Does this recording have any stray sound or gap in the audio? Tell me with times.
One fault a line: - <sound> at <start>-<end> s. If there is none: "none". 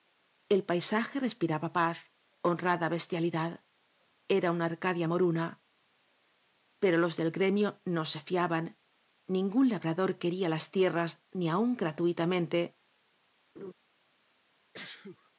- laugh at 13.6-13.7 s
- sneeze at 14.7-15.3 s